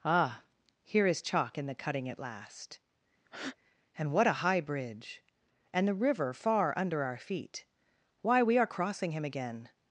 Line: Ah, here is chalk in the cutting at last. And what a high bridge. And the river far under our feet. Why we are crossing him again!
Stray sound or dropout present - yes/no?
yes